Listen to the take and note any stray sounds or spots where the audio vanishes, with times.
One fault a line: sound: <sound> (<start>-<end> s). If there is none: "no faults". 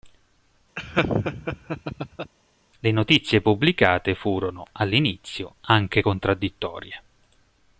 sound: laugh (0.8-2.3 s)